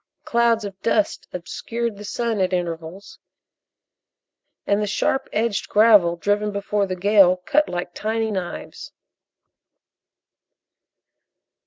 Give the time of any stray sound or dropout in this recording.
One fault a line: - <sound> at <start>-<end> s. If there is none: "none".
none